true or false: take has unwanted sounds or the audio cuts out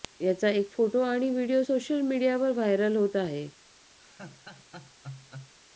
true